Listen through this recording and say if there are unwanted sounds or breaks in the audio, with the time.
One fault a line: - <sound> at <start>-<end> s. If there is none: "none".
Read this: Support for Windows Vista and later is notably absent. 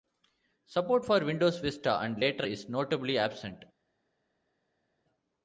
none